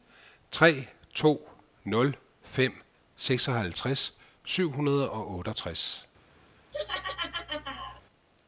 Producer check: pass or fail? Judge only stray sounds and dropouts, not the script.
fail